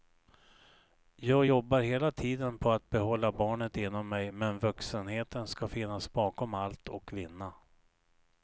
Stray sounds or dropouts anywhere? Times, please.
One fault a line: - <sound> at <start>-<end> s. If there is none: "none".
none